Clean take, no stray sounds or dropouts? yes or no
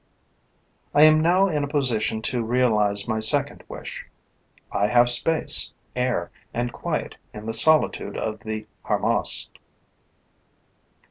yes